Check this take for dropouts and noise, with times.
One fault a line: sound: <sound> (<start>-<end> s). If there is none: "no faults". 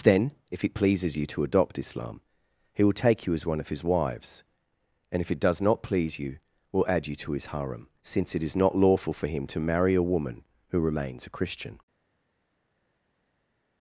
no faults